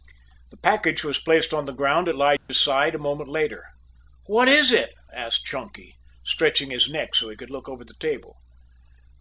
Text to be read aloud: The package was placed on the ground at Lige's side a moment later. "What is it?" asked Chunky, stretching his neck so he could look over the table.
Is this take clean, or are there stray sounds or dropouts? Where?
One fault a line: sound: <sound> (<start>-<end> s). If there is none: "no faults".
sound: dropout (2.4-2.5 s)